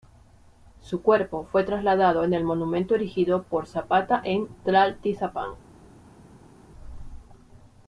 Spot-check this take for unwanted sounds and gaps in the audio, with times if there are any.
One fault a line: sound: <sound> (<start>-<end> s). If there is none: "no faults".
no faults